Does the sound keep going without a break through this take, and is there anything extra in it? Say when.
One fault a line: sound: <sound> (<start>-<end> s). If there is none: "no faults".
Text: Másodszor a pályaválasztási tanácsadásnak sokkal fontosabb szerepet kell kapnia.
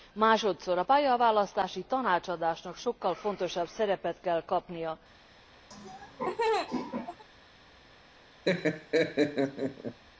sound: laugh (5.7-7.2 s)
sound: laugh (8.4-10.0 s)